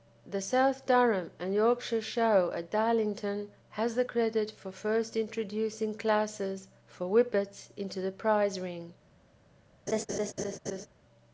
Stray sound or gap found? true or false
true